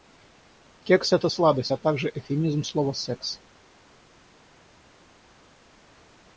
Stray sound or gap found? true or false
false